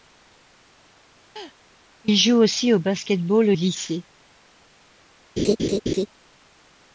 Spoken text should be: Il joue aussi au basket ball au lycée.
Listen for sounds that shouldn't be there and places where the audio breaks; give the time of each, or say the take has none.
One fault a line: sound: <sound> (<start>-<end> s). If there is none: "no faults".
sound: laugh (1.4-1.6 s)
sound: laugh (5.4-6.1 s)